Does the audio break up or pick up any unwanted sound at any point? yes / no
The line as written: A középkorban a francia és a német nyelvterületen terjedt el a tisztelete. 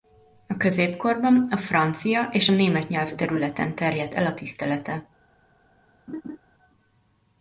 yes